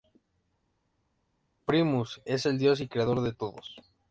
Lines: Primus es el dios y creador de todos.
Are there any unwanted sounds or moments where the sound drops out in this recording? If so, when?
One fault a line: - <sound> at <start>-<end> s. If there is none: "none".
none